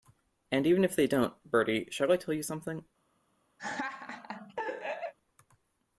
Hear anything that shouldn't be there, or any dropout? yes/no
yes